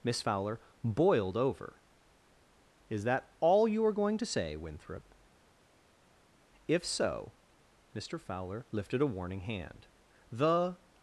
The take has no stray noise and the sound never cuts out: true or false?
true